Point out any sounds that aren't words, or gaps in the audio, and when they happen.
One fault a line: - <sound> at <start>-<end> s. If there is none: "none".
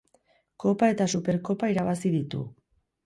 none